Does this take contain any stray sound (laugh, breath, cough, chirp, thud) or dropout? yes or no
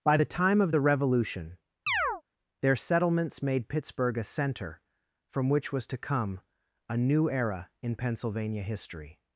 yes